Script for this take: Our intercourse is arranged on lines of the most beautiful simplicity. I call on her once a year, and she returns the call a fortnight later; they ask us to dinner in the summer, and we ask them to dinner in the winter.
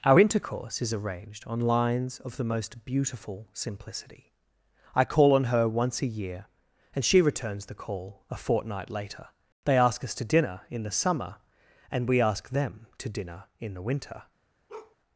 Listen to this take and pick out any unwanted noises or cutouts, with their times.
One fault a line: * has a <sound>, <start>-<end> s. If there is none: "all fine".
* has a bark, 14.7-15.0 s